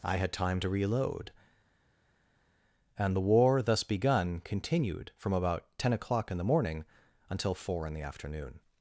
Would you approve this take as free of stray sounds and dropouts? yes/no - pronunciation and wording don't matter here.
yes